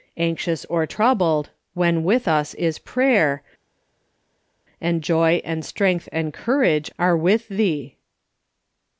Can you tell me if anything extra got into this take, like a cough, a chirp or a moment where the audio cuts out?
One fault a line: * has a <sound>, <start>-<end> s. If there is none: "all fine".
all fine